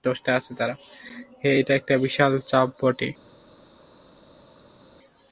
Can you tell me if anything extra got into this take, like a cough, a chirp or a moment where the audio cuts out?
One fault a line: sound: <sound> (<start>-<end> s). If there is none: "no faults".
no faults